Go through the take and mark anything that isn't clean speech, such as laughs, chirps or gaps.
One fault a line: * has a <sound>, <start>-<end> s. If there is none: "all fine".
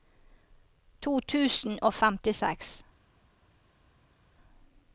all fine